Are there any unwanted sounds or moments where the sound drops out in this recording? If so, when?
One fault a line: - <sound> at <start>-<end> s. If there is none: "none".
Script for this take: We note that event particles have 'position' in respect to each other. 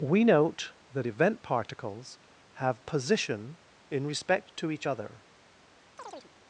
- chirp at 6.0-6.3 s